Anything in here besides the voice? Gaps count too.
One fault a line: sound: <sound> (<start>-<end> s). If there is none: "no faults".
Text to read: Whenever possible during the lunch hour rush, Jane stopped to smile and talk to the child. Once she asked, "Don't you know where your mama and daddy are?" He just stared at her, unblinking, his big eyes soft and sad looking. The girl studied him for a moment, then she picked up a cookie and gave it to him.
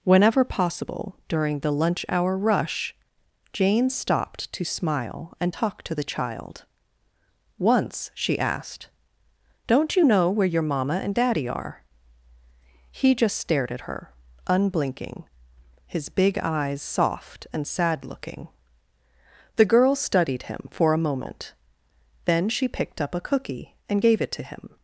no faults